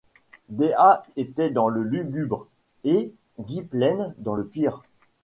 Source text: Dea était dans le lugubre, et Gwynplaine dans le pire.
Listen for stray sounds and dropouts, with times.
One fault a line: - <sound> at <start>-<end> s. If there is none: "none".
none